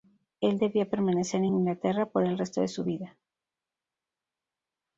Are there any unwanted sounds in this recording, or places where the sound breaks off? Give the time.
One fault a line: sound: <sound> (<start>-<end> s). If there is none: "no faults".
no faults